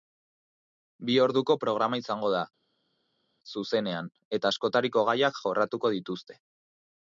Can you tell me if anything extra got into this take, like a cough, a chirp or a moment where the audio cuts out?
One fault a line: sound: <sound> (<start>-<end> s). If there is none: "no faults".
no faults